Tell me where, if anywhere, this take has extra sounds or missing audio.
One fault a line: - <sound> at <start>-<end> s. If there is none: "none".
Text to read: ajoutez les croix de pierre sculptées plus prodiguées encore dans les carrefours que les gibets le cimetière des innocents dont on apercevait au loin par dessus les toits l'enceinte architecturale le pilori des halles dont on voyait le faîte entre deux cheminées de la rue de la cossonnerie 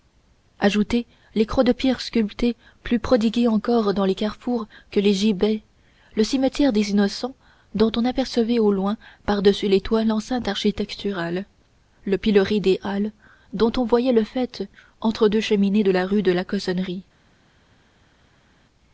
none